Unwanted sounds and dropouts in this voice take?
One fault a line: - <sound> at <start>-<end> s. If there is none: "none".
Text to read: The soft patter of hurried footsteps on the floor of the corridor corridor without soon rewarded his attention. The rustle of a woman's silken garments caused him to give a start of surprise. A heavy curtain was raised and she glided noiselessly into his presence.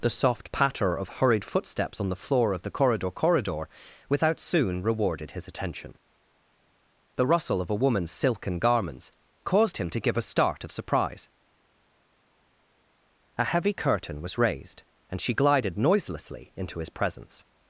none